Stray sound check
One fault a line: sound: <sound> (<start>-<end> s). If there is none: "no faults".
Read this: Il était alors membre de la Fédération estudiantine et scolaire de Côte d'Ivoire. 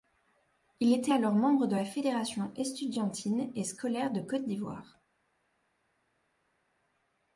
no faults